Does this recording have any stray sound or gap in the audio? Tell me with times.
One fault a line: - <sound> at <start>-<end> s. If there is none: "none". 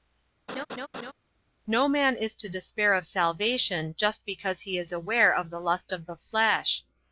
- laugh at 0.5-1.1 s